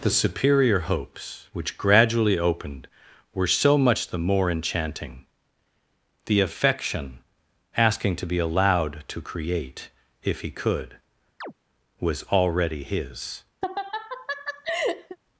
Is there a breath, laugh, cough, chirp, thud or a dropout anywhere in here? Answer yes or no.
yes